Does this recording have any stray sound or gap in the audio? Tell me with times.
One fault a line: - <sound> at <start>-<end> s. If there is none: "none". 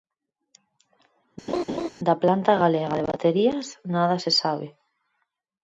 - laugh at 1.5-1.9 s